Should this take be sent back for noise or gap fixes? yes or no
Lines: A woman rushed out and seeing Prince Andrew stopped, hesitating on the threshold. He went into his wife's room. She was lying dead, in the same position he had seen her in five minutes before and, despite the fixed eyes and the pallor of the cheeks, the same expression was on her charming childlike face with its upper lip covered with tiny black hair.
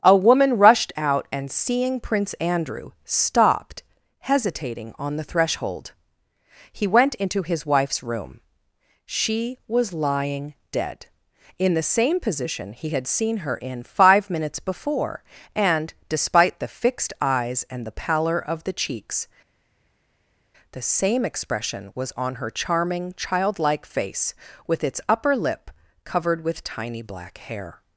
no